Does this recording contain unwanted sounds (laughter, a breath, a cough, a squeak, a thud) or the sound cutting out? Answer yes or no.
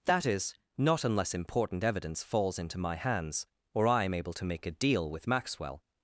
no